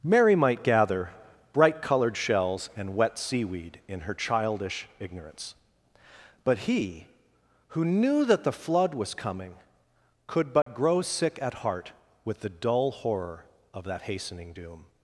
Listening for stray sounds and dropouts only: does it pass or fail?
fail